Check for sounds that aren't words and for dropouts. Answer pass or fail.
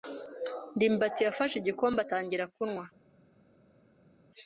pass